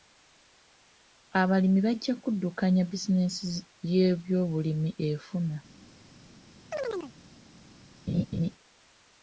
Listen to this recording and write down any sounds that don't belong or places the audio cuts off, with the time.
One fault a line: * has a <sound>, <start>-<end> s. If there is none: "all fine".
* has a chirp, 6.7-7.1 s
* has a laugh, 8.1-8.5 s